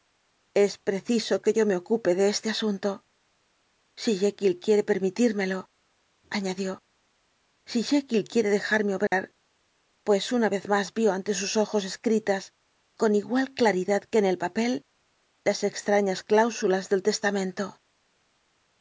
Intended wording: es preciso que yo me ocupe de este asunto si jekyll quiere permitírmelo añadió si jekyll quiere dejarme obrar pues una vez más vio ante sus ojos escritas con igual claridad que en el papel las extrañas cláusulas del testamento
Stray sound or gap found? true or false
true